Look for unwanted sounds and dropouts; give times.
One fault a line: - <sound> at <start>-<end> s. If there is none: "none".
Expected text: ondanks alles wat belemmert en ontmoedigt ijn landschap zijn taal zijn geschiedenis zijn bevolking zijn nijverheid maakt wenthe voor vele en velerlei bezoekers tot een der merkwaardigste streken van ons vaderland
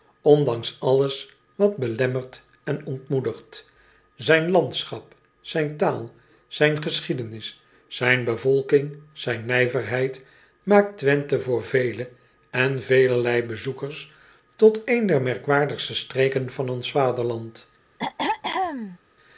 - throat clearing at 18.0-19.0 s